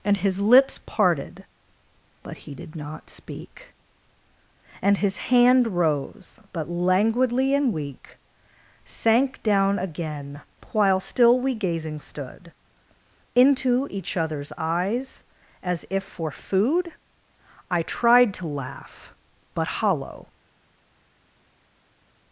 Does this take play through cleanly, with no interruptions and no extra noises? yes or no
yes